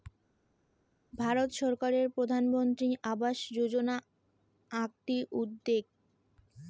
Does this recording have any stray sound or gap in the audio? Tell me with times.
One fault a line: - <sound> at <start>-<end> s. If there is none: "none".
none